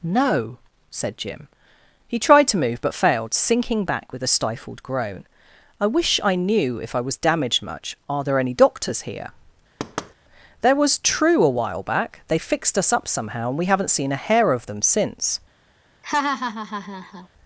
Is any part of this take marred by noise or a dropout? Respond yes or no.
yes